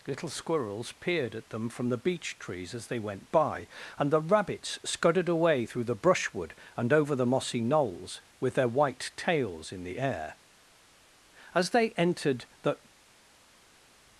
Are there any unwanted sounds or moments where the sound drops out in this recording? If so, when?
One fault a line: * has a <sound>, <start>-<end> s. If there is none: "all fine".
all fine